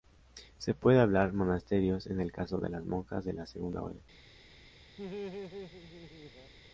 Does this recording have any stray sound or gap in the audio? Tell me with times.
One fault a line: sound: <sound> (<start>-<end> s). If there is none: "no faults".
sound: laugh (5.0-6.5 s)